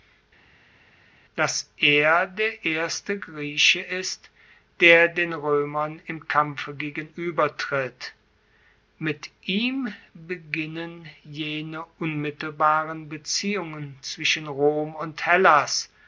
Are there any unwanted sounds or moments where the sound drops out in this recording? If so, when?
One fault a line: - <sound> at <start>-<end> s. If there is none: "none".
none